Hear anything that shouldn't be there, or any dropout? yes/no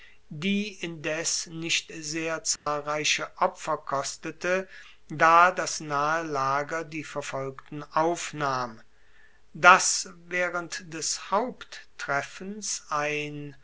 yes